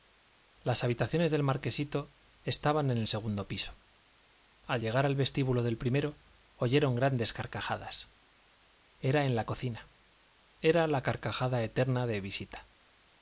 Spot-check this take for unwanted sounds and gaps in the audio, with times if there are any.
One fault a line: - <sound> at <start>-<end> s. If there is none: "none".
none